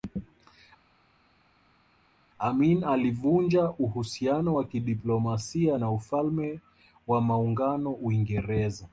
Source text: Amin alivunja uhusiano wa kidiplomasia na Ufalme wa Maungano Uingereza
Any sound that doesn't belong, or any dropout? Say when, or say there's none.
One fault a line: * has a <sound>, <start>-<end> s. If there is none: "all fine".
all fine